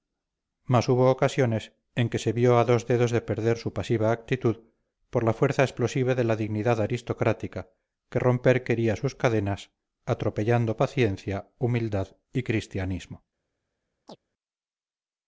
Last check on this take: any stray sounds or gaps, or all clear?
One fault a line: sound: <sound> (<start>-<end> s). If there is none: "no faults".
sound: chirp (14.1-14.2 s)